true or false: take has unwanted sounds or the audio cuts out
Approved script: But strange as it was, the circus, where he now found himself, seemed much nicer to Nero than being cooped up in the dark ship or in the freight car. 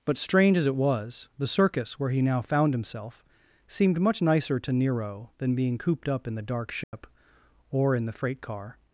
true